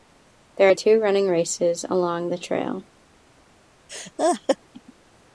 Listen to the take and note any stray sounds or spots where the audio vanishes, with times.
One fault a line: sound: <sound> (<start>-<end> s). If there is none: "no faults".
sound: laugh (3.9-4.6 s)